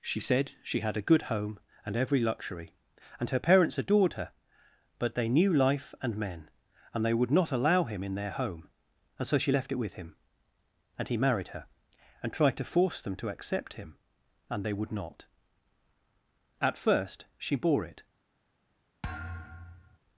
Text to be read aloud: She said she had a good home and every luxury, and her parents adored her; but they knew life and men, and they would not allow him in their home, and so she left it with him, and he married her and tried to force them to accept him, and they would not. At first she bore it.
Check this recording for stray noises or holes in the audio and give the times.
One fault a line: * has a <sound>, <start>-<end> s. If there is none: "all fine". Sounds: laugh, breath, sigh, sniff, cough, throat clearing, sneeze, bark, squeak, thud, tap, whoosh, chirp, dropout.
* has a thud, 19.0-20.0 s